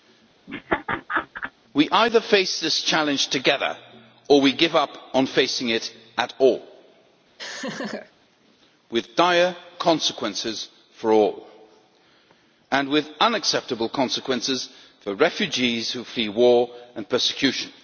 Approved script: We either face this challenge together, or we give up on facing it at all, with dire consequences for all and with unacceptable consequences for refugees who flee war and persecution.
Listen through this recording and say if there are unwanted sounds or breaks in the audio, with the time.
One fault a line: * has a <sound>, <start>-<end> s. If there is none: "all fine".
* has a laugh, 0.5-1.5 s
* has a laugh, 7.4-8.1 s